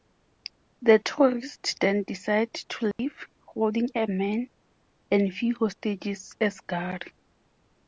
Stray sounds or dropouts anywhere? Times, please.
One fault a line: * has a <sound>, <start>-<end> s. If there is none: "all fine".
* has a dropout, 2.9-3.0 s